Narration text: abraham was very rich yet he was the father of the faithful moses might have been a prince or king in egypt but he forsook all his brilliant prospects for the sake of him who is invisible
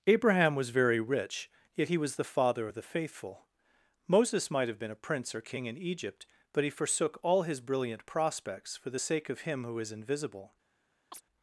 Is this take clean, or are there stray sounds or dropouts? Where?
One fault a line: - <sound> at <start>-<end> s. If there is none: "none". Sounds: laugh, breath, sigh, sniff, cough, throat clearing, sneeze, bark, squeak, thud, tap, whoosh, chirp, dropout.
- chirp at 11.1-11.2 s